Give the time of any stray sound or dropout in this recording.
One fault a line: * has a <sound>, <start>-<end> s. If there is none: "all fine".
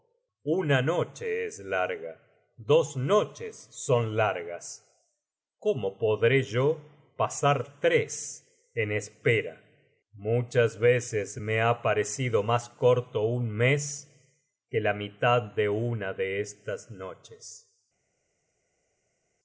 all fine